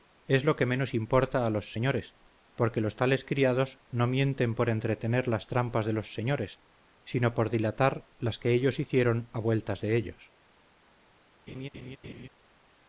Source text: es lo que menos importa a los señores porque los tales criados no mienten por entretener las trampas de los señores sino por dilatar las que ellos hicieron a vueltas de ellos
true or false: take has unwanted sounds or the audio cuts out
true